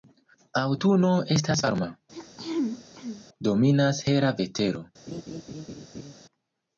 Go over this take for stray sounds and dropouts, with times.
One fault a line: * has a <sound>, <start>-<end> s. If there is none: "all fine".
* has a throat clearing, 2.1-3.3 s
* has a laugh, 5.1-6.1 s